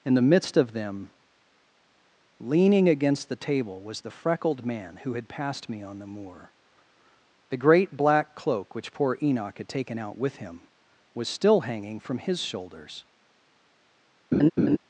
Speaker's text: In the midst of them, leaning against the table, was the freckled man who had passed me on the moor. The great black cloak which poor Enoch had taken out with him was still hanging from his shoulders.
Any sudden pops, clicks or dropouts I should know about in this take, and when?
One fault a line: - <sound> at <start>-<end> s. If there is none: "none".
- laugh at 14.3-14.8 s